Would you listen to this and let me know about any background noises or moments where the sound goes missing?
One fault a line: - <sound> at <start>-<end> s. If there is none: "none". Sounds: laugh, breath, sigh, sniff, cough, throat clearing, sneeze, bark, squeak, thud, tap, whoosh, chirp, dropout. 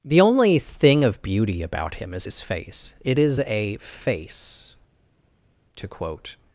none